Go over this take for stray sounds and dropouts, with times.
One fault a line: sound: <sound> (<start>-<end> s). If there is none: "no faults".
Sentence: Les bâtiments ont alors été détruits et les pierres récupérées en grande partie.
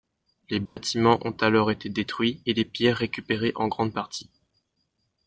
sound: dropout (0.7-0.8 s)